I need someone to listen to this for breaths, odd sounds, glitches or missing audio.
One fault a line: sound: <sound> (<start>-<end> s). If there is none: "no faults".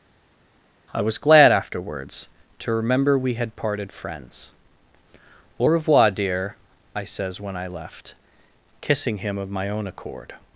no faults